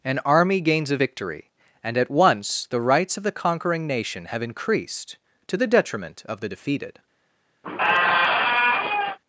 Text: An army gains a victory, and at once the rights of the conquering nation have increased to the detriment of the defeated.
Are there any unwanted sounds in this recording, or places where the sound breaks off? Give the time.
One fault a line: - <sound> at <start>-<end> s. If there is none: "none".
- squeak at 7.6-9.2 s